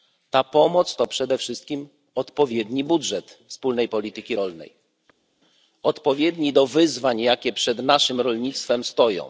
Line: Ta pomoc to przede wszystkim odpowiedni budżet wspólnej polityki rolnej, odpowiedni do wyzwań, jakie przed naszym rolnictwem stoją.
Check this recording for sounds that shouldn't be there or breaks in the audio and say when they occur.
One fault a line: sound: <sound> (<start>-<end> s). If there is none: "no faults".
no faults